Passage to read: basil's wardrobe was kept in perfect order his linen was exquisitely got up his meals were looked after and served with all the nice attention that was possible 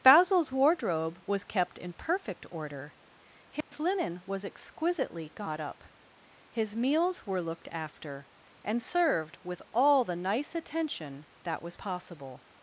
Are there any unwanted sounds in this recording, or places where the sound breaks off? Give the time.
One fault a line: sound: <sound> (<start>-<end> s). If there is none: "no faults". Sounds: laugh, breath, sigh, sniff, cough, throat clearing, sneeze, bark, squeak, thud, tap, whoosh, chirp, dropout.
sound: dropout (3.6-3.7 s)